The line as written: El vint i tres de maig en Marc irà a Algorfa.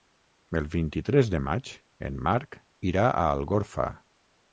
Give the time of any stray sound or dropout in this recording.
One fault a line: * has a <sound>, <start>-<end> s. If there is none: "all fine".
all fine